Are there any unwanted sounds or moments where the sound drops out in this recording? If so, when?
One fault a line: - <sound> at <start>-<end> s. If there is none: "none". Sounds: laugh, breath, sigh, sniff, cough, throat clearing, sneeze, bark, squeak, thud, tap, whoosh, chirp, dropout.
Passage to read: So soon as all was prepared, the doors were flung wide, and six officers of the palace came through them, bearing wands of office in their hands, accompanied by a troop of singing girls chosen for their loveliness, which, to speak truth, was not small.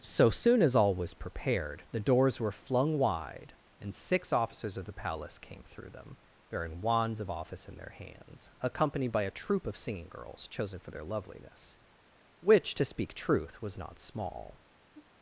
- sigh at 14.9-15.1 s